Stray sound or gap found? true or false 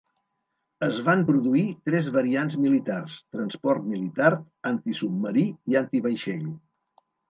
false